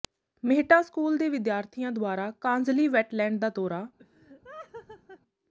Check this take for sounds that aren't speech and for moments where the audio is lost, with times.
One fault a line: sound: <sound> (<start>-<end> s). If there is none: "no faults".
sound: laugh (4.0-5.2 s)